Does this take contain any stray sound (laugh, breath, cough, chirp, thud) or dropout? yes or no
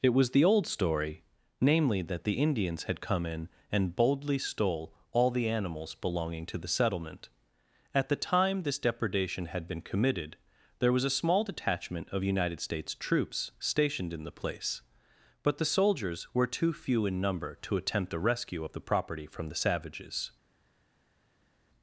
no